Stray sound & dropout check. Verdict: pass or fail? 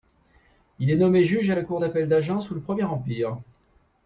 pass